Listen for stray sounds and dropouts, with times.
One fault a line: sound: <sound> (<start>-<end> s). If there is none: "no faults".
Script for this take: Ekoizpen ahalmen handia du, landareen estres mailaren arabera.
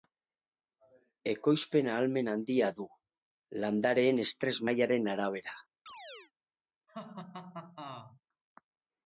sound: chirp (5.9-6.3 s)
sound: laugh (6.9-8.2 s)